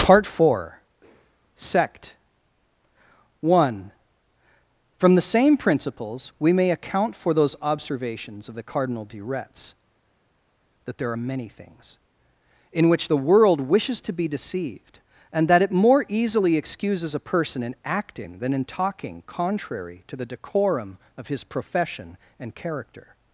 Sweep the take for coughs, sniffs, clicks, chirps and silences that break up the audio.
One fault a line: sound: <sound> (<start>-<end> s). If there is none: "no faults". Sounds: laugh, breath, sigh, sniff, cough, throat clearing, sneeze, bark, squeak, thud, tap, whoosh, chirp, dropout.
no faults